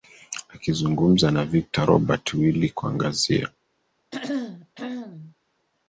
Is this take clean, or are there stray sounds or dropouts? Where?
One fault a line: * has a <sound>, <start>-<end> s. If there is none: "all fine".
* has a throat clearing, 4.1-5.3 s